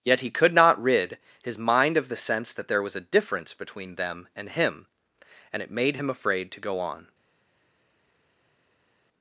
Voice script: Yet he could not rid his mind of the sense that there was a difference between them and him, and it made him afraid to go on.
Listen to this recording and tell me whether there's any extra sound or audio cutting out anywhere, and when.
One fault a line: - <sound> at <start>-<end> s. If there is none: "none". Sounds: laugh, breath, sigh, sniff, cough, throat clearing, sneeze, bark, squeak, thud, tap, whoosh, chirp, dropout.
none